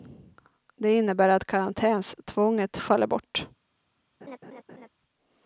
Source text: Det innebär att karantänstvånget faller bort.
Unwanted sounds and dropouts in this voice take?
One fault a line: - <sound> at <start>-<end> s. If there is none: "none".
- laugh at 4.2-4.9 s